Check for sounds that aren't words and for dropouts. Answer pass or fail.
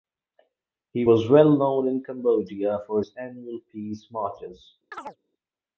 fail